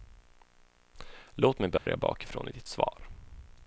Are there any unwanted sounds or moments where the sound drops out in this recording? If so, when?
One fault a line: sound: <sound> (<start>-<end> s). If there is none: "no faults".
sound: dropout (1.8-1.9 s)